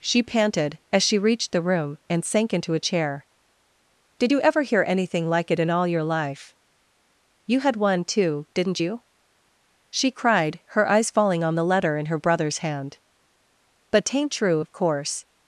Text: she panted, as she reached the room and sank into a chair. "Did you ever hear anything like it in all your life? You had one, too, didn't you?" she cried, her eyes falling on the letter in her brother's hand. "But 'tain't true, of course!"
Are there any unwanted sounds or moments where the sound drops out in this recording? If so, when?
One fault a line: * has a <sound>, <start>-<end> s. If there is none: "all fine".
all fine